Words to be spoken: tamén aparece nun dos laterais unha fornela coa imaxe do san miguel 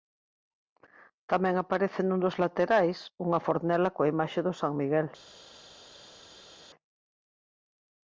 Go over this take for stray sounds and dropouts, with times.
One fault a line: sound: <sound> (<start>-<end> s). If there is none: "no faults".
no faults